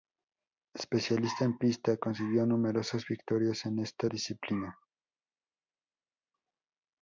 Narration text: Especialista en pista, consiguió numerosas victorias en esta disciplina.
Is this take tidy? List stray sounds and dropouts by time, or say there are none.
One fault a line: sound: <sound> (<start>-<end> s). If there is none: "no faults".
no faults